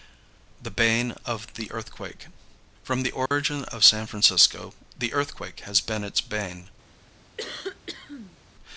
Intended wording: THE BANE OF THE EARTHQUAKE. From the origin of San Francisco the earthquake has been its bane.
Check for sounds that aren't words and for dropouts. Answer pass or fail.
fail